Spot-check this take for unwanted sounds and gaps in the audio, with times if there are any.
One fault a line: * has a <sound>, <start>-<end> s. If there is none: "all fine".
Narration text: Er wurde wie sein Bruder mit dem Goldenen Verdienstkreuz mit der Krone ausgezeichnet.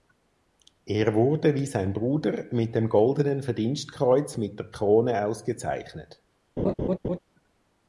* has a laugh, 6.6-7.2 s